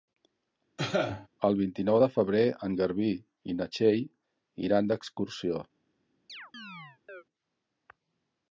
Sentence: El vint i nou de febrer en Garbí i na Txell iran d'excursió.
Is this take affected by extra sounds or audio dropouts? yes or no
yes